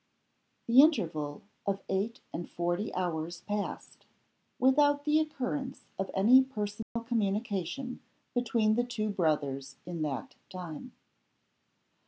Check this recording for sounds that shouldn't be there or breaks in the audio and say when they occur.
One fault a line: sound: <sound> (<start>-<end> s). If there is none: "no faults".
sound: dropout (6.8-7.0 s)